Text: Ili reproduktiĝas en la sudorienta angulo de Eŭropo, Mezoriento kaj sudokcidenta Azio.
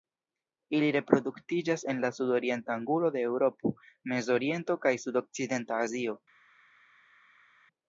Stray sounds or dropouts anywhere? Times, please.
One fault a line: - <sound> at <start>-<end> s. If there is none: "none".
none